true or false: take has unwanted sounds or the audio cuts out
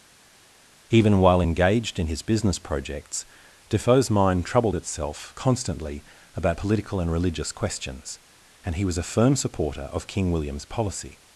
false